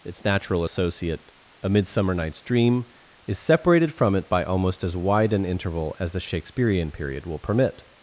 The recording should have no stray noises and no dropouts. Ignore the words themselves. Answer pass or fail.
pass